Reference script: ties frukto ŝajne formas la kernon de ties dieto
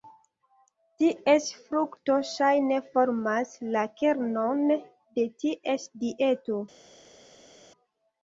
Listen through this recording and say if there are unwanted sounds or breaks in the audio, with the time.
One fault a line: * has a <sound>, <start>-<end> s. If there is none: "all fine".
all fine